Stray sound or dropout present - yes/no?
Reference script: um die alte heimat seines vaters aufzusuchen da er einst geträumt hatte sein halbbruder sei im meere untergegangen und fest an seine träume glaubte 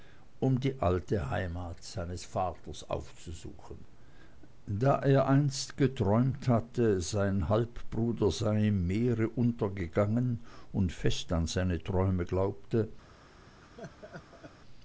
yes